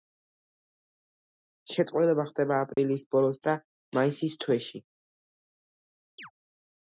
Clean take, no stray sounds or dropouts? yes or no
no